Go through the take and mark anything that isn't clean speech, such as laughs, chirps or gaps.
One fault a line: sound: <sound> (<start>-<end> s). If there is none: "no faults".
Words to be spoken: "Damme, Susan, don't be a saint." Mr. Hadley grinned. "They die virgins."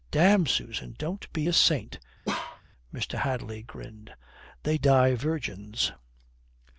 sound: bark (2.3-2.6 s)